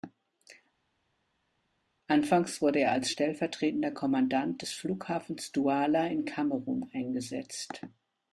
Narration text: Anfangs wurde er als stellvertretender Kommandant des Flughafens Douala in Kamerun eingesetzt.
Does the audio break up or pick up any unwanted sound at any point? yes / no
no